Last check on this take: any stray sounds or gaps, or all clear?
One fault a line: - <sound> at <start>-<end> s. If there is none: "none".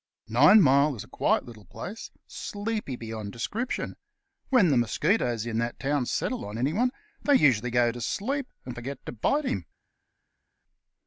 none